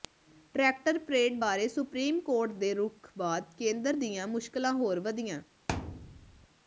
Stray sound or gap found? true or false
true